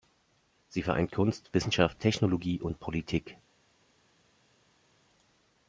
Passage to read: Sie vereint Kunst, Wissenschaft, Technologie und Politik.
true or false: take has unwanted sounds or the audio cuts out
false